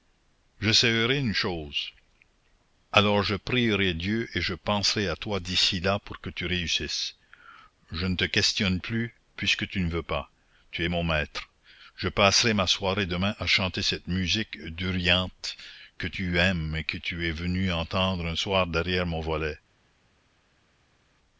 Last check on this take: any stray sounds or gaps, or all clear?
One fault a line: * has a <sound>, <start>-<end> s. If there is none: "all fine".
all fine